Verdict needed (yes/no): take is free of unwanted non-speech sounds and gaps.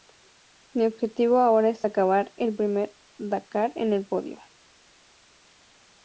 yes